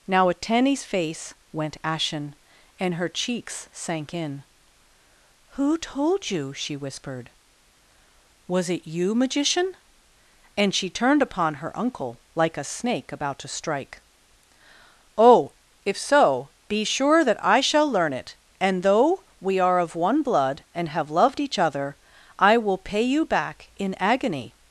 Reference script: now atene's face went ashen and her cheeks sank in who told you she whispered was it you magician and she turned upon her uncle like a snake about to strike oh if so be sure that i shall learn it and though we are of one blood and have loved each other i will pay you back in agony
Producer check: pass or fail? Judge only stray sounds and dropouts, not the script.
pass